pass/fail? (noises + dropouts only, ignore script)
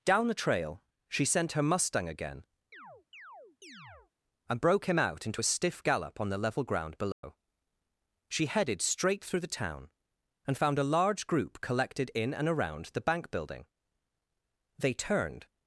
fail